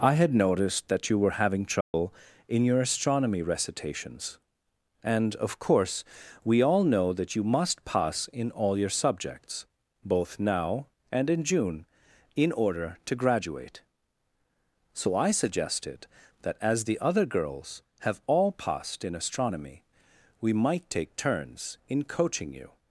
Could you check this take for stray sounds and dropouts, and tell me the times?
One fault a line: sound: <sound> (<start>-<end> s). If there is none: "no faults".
sound: dropout (1.8-1.9 s)